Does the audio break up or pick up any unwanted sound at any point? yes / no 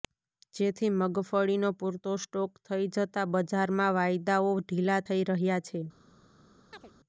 yes